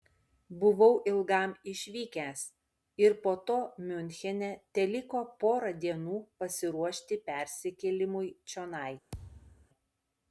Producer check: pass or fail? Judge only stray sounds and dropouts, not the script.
fail